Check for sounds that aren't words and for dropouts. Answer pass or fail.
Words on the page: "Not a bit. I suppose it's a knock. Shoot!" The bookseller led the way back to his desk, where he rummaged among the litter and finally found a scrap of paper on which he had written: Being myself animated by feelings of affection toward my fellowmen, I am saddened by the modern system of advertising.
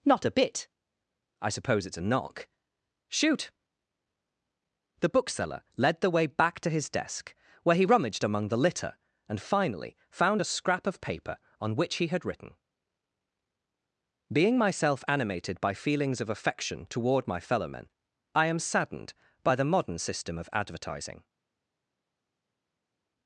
pass